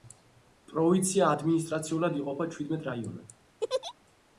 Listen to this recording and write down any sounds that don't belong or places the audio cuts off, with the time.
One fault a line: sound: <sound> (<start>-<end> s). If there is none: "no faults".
sound: laugh (3.6-3.9 s)